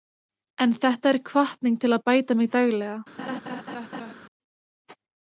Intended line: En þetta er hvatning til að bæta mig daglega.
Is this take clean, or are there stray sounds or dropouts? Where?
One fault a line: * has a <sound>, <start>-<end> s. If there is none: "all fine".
* has a laugh, 3.2-4.1 s